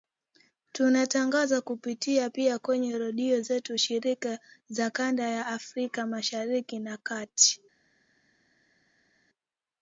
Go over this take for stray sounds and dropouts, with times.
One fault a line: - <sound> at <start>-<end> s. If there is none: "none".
none